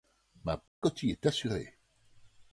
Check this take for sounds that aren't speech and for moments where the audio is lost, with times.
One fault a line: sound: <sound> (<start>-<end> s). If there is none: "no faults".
sound: dropout (0.7-0.8 s)